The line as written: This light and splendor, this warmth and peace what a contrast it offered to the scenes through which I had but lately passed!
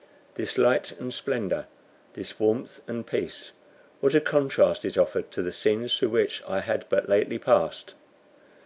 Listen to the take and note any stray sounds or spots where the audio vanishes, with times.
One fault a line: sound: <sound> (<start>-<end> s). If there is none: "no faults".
no faults